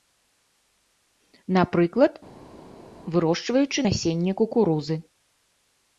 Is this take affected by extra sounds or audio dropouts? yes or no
no